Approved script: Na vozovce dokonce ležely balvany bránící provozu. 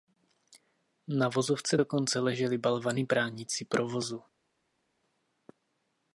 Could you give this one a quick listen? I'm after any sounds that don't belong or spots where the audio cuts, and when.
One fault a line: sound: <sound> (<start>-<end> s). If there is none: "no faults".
no faults